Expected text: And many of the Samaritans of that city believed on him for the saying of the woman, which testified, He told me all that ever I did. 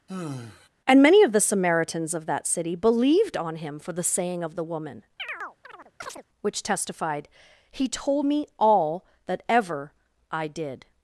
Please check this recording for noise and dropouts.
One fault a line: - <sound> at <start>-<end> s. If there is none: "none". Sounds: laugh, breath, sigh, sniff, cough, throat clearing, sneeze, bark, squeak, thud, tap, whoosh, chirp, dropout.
- sigh at 0.1-0.7 s
- chirp at 5.2-6.2 s